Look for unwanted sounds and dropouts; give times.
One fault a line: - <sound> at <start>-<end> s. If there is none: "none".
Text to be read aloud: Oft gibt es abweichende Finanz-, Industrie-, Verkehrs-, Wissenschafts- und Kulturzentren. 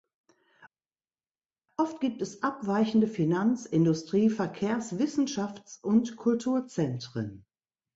none